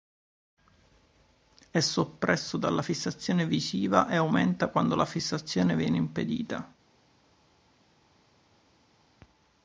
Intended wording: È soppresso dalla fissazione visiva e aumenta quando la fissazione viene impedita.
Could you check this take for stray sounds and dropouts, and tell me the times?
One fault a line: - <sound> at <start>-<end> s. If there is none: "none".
none